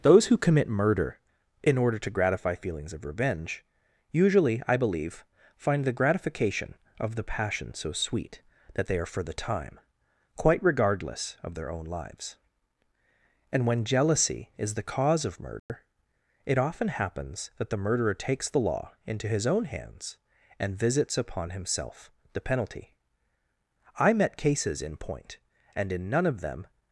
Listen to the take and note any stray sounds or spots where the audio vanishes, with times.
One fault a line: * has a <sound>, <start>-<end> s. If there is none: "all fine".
* has a dropout, 15.6-15.7 s